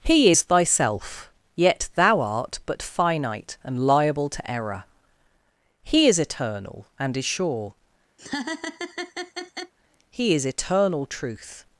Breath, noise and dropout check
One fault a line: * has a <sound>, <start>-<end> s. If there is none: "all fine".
* has a laugh, 8.2-9.7 s